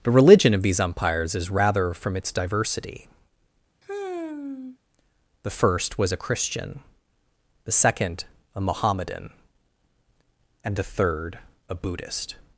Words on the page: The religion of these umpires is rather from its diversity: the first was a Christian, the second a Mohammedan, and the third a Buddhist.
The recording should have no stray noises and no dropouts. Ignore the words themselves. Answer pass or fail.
fail